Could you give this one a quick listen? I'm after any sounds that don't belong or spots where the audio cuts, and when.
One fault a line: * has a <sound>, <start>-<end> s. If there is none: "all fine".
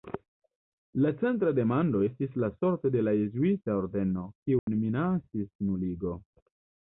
* has a dropout, 4.6-4.7 s